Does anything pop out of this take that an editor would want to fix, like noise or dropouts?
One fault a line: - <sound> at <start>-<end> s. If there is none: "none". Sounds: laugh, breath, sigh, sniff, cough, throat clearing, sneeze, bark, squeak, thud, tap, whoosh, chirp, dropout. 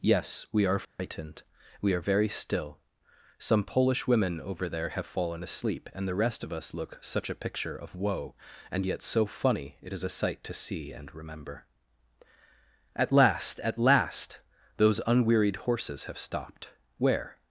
- dropout at 0.8-1.0 s